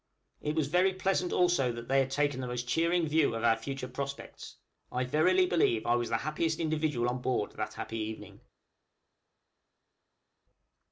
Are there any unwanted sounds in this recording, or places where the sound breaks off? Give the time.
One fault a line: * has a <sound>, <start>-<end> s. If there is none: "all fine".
all fine